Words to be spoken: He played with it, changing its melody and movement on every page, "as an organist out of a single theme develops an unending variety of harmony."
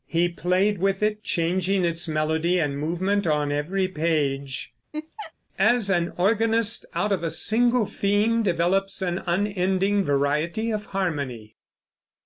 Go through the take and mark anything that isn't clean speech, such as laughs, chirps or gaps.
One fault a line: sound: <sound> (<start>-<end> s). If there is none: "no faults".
sound: laugh (4.9-5.3 s)